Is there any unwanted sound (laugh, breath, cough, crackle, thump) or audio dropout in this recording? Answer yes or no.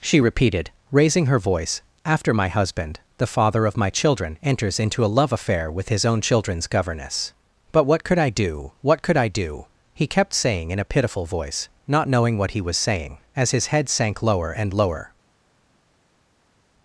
no